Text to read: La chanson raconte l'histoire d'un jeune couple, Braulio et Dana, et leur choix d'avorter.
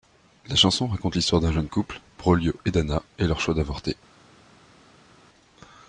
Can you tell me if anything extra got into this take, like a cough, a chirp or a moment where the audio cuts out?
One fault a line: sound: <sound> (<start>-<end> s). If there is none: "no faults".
no faults